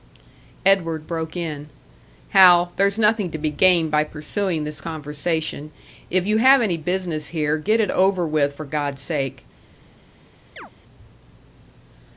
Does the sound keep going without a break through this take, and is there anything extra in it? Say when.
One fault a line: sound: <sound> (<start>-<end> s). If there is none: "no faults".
sound: chirp (10.6-10.7 s)